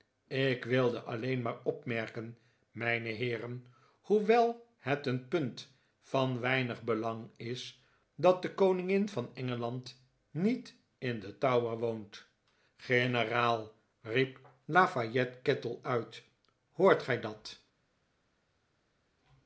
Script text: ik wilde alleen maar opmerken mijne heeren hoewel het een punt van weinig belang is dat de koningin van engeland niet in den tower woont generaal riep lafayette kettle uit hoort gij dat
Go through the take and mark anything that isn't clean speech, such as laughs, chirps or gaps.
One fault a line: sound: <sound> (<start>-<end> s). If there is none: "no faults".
no faults